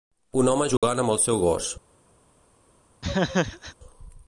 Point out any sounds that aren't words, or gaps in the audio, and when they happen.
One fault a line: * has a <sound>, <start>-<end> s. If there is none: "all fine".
* has a dropout, 0.8-0.8 s
* has a laugh, 3.0-3.8 s